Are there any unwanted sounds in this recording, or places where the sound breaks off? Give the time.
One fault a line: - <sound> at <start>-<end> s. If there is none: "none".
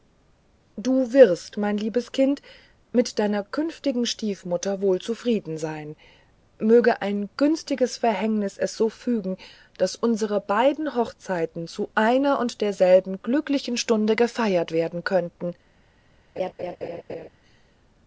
- laugh at 16.4-17.3 s